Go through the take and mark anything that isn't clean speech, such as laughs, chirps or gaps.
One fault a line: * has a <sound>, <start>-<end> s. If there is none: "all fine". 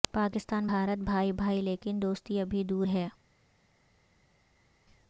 all fine